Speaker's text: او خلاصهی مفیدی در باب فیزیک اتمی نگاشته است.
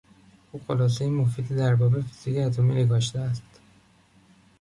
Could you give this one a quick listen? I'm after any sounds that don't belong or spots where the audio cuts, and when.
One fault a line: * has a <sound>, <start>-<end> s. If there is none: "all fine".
all fine